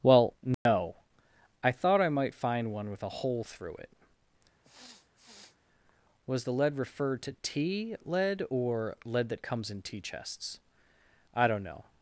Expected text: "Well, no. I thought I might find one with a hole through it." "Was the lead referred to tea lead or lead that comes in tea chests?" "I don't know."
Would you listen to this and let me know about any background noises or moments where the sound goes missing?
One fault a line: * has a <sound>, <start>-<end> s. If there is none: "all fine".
* has a dropout, 0.5-0.7 s
* has a sniff, 4.6-5.6 s